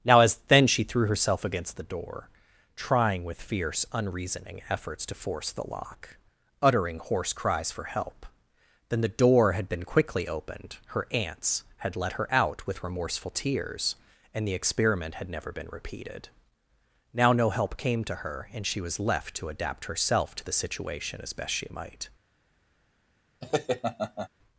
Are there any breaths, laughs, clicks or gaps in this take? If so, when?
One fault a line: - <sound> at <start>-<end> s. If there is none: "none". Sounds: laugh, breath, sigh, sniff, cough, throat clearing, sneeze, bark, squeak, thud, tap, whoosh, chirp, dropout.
- laugh at 23.4-24.3 s